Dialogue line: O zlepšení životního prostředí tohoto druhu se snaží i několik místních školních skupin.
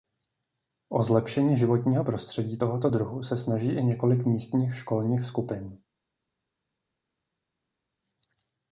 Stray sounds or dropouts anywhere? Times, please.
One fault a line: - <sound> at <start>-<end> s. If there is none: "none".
none